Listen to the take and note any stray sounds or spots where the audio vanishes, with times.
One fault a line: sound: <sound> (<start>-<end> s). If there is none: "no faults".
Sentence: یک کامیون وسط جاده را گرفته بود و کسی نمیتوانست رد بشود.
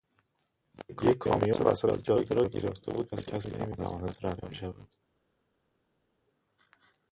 no faults